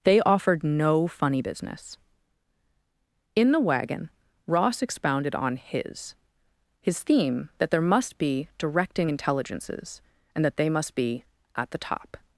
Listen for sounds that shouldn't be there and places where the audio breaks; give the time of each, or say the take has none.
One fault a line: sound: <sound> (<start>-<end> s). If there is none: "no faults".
no faults